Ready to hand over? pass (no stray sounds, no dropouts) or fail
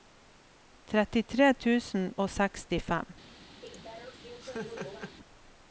fail